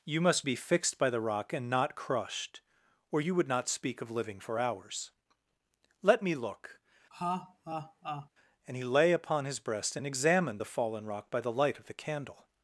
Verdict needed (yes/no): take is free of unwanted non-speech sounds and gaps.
no